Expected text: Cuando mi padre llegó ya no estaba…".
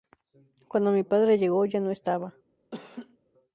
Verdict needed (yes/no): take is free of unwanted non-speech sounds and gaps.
no